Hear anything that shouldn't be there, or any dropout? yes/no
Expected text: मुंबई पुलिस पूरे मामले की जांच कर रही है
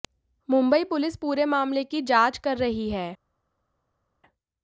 no